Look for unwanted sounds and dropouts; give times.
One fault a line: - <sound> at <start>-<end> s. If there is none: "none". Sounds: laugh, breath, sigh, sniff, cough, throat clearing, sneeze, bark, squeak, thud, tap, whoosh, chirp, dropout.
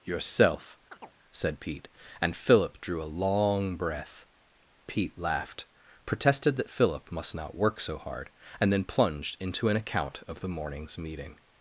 - chirp at 0.9-1.2 s